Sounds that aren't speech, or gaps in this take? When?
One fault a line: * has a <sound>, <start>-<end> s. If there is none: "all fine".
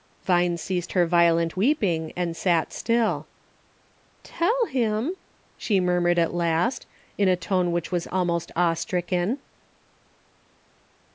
all fine